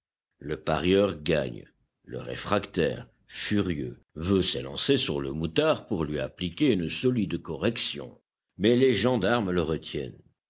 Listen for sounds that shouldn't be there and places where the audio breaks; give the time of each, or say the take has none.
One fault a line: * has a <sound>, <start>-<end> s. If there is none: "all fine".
all fine